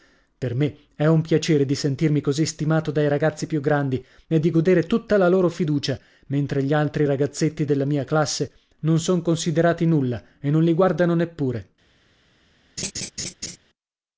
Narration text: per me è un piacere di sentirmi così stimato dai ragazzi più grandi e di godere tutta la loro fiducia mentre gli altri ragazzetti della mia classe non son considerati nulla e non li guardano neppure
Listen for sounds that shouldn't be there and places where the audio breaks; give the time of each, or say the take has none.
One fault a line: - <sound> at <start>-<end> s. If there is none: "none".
- laugh at 12.8-13.6 s